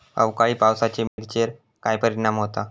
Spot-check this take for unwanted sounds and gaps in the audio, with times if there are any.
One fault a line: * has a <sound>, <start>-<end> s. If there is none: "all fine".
* has a dropout, 1.1-1.2 s